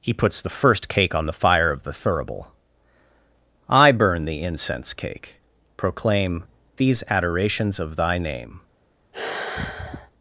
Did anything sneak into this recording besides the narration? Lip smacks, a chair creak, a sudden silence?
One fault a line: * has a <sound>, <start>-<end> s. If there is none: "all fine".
* has a sigh, 9.1-10.1 s